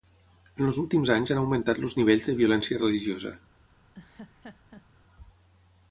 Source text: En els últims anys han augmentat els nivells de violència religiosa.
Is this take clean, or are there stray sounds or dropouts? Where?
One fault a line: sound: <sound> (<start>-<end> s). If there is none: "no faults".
sound: laugh (3.9-4.9 s)